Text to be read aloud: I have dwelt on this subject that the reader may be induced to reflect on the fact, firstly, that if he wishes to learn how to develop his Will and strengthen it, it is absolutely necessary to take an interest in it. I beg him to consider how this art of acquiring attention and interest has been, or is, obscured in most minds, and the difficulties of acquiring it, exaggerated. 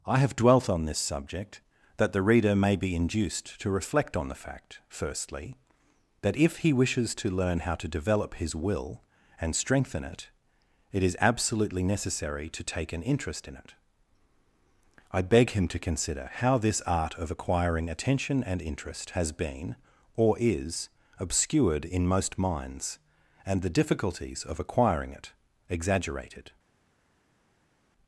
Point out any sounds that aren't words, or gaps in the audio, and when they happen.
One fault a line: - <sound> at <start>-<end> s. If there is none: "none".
none